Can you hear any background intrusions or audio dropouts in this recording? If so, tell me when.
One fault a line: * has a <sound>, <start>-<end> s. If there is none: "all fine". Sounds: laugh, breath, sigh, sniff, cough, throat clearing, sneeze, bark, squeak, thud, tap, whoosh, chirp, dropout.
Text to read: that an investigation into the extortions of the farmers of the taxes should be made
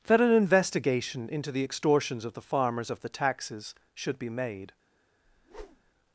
* has a whoosh, 5.2-5.9 s